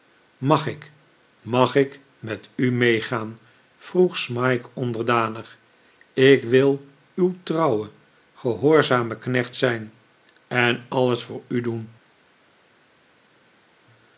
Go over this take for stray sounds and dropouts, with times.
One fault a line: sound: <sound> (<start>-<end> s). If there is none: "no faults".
no faults